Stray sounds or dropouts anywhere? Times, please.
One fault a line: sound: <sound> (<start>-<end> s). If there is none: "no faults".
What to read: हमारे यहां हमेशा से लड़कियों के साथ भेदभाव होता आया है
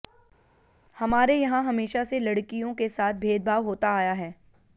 no faults